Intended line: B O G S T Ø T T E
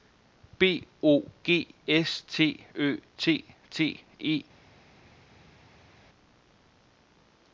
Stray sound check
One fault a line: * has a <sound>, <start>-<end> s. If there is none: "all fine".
all fine